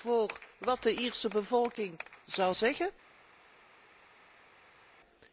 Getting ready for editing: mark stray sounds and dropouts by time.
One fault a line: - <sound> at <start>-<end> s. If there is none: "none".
none